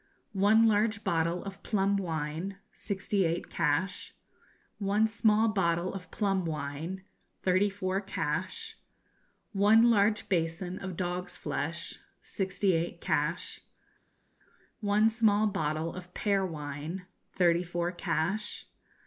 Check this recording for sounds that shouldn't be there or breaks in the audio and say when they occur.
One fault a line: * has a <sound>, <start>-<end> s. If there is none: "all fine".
all fine